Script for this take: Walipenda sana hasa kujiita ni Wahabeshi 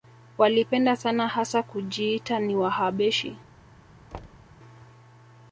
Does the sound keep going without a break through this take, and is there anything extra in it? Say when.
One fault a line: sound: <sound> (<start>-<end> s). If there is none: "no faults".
sound: thud (4.1-4.5 s)